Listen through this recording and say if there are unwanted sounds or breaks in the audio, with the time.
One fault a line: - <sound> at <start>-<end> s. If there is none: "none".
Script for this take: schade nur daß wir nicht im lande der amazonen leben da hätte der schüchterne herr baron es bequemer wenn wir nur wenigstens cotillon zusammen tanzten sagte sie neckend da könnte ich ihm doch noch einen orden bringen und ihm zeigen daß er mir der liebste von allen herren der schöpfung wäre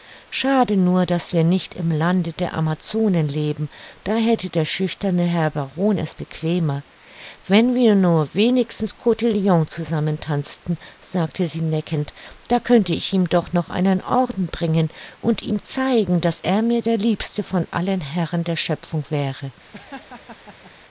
- laugh at 19.7-20.7 s